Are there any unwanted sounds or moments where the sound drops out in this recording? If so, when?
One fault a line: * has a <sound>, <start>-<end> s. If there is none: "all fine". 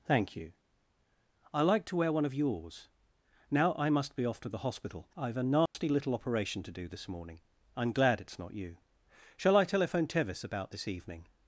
* has a dropout, 5.7-5.7 s